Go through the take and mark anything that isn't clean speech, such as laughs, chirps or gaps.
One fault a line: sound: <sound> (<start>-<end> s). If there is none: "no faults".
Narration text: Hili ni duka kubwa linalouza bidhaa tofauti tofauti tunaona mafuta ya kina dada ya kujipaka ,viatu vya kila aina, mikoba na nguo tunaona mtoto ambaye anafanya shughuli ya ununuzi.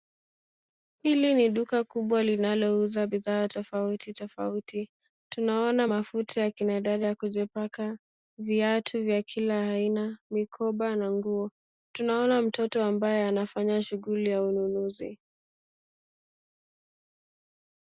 no faults